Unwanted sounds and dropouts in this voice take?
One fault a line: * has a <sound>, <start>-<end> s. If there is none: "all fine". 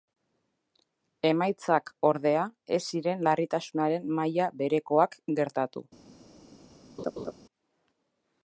* has a laugh, 7.0-7.3 s